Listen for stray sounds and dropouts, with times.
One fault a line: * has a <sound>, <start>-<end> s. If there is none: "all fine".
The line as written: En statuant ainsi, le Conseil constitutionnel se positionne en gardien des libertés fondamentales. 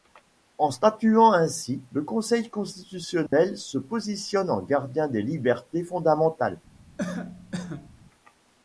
* has a dropout, 3.3-3.3 s
* has a cough, 7.0-7.9 s